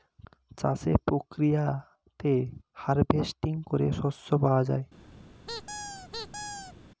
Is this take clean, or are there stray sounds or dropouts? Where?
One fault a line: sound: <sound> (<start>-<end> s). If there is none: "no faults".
sound: squeak (5.5-6.7 s)